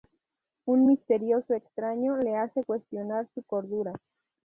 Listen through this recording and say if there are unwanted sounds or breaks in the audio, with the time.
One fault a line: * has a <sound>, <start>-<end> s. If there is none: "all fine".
all fine